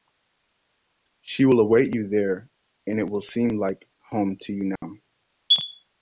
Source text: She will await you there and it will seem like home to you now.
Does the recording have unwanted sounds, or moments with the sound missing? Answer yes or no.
yes